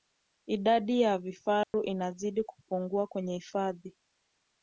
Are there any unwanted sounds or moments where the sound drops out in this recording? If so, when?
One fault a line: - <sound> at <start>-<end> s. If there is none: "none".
- dropout at 1.6-1.7 s